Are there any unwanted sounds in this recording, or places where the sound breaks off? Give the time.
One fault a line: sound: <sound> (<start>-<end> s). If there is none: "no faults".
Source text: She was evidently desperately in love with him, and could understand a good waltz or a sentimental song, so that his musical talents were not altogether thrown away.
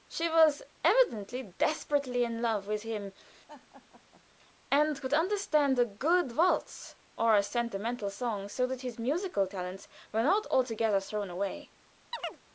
sound: laugh (3.5-4.2 s)
sound: chirp (12.1-12.4 s)